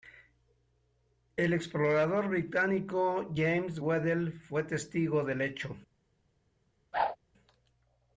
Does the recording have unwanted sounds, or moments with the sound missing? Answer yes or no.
yes